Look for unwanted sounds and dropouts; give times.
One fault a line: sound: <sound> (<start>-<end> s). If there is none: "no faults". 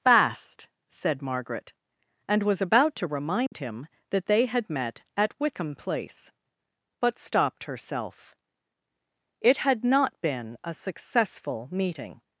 sound: dropout (3.5-3.5 s)